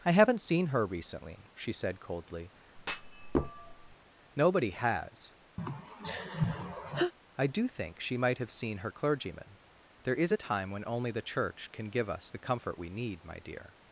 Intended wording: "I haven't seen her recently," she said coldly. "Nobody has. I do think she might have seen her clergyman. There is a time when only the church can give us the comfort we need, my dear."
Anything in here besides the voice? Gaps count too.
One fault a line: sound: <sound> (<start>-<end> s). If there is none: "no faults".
sound: thud (2.8-4.0 s)
sound: sigh (5.6-7.1 s)